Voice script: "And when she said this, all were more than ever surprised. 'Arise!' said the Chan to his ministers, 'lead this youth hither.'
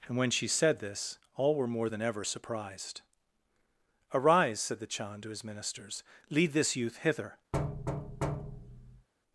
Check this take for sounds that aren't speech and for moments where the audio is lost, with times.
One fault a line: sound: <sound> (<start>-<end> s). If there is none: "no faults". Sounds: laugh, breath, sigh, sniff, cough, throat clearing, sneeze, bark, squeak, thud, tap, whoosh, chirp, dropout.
sound: thud (7.5-9.1 s)